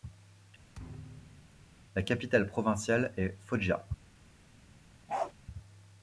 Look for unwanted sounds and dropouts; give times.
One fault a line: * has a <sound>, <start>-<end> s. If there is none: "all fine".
* has a thud, 0.7-1.8 s
* has a bark, 5.1-5.3 s